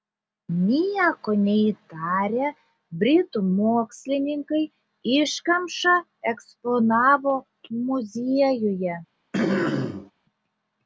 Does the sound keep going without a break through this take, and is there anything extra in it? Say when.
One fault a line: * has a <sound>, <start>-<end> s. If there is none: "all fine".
* has a throat clearing, 9.3-10.1 s